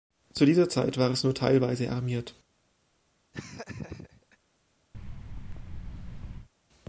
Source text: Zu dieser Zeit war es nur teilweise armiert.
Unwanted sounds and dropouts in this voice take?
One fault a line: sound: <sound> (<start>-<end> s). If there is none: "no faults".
sound: laugh (3.3-4.4 s)
sound: thud (4.9-6.5 s)